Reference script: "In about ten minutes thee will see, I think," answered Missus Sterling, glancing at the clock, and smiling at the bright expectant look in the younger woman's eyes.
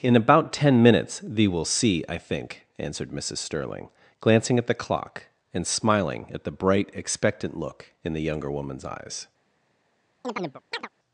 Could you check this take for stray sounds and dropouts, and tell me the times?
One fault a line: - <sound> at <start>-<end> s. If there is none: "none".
- chirp at 10.2-10.9 s